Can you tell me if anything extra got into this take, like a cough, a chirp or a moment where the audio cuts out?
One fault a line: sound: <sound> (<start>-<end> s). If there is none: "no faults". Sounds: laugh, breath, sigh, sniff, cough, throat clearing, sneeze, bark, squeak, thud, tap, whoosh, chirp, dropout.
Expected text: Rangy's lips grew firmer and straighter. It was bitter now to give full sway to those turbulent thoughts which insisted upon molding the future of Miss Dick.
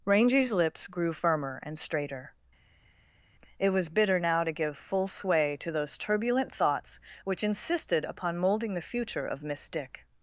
no faults